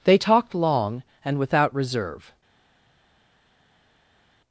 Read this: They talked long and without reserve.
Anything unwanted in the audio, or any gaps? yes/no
no